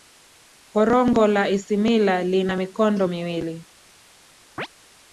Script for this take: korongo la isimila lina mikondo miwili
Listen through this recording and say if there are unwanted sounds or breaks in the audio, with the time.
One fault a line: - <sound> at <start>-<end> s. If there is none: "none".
- chirp at 4.6-4.7 s